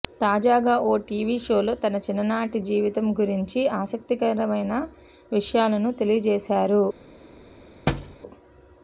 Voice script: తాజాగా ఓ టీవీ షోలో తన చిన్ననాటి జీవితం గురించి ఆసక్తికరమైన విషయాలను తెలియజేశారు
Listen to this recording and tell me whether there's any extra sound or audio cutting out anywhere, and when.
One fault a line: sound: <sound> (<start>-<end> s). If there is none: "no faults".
sound: thud (7.9-8.2 s)